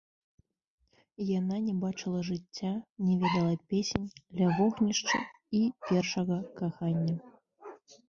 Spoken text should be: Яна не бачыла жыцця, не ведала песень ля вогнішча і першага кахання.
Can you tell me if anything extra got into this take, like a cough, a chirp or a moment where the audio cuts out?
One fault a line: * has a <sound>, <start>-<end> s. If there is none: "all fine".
all fine